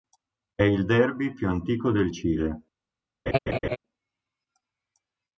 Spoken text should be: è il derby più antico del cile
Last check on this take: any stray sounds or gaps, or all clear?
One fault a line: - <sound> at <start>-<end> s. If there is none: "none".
- laugh at 3.3-3.8 s